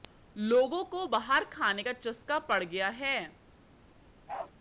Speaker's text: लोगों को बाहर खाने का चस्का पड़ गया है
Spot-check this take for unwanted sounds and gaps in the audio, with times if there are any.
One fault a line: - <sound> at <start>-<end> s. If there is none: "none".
- bark at 4.3-4.5 s